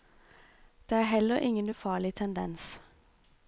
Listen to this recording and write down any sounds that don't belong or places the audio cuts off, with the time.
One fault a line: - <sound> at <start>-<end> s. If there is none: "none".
none